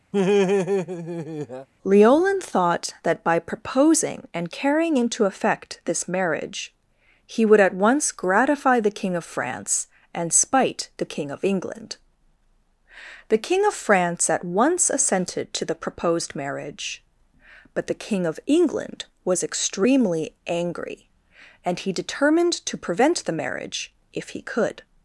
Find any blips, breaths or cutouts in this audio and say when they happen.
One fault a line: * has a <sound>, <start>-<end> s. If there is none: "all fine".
* has a laugh, 0.1-1.7 s